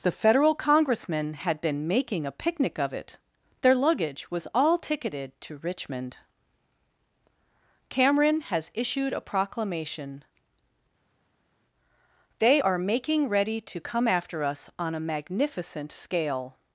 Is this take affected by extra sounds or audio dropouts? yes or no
no